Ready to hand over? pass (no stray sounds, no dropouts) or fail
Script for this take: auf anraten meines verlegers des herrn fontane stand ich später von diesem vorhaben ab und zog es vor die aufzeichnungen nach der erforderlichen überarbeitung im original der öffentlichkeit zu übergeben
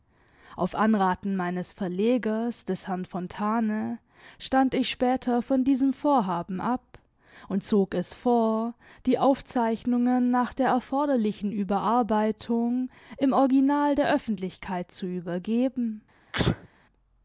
fail